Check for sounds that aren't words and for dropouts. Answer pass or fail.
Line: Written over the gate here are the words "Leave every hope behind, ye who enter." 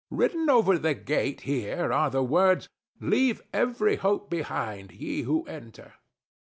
pass